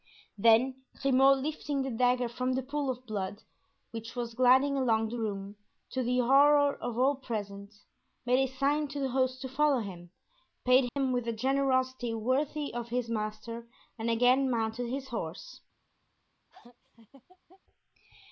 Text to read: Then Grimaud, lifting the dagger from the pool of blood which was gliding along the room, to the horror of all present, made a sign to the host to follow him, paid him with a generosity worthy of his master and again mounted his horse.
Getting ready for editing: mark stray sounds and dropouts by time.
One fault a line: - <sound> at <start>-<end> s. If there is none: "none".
- dropout at 10.9-11.0 s
- laugh at 16.5-17.6 s